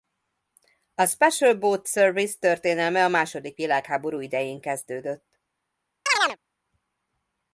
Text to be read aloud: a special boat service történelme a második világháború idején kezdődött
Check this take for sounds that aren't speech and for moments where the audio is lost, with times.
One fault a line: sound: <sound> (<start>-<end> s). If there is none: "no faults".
sound: chirp (6.1-6.4 s)